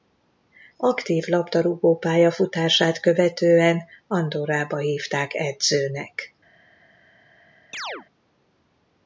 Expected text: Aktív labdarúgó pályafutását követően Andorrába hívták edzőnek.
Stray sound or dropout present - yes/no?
yes